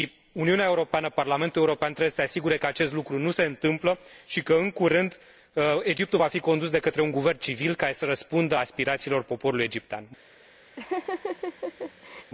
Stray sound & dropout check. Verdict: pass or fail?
fail